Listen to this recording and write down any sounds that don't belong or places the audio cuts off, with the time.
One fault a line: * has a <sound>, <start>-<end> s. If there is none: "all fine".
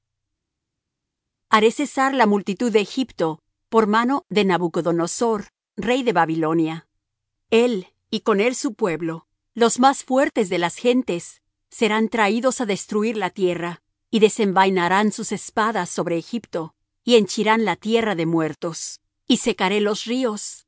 all fine